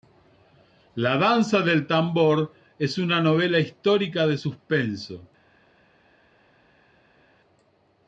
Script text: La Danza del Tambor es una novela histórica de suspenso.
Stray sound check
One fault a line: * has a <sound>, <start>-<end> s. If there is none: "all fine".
all fine